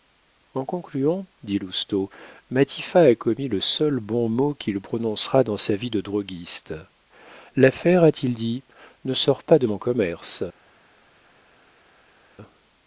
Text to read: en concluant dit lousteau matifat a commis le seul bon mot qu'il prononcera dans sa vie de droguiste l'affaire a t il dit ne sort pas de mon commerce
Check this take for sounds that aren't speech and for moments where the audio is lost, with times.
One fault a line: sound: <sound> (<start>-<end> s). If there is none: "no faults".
no faults